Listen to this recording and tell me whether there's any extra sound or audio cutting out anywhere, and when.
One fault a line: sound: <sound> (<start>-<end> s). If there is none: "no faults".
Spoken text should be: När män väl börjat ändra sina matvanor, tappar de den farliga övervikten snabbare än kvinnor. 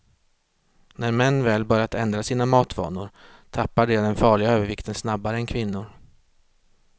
no faults